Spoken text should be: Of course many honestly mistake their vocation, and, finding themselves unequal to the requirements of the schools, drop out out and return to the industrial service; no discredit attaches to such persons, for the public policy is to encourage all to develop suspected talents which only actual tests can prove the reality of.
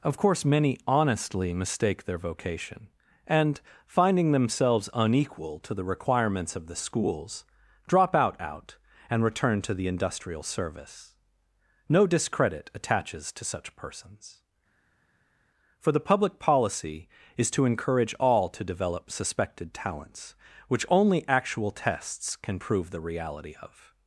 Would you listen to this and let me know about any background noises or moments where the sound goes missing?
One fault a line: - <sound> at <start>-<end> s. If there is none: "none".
none